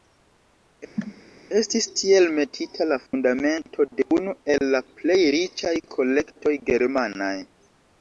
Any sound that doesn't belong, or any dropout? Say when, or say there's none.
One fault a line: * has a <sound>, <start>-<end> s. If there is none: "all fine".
* has a cough, 1.0-1.2 s
* has a dropout, 3.1-3.1 s